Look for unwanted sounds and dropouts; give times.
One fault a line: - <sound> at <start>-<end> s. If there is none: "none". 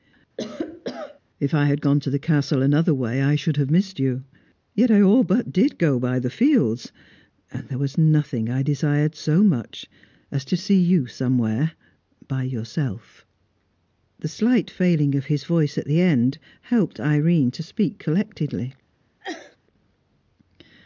- cough at 0.4-1.2 s
- sneeze at 19.2-19.6 s